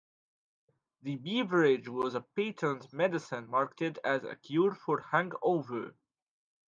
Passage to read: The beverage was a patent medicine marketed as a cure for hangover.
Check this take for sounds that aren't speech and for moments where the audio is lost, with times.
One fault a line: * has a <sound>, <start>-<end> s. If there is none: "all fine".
all fine